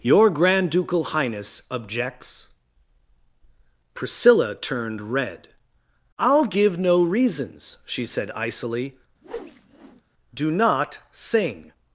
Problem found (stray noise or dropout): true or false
true